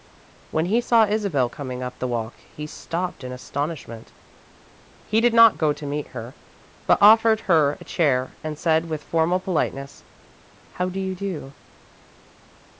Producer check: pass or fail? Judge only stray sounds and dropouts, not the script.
pass